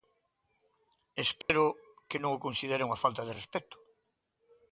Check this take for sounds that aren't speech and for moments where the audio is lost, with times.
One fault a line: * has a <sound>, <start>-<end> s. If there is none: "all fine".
* has a dropout, 1.4-1.5 s